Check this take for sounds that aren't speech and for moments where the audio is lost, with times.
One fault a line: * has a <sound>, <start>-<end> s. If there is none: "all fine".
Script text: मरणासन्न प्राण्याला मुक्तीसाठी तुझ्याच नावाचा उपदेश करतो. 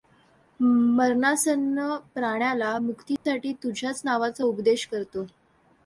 * has a dropout, 3.2-3.3 s